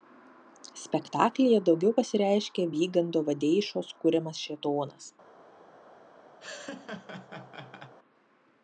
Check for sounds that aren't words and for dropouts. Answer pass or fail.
fail